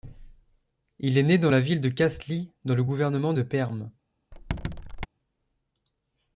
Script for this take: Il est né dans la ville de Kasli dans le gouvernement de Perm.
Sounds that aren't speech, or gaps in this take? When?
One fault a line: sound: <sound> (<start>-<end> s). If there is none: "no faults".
sound: squeak (4.3-5.1 s)